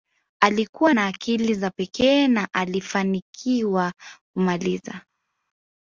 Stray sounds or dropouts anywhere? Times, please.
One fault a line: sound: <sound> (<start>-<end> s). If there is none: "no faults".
no faults